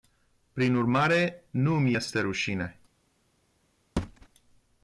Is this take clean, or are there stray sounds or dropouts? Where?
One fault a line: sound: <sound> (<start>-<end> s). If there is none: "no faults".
sound: thud (4.0-4.3 s)